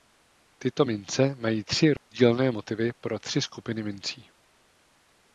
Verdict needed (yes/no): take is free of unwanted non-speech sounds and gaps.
no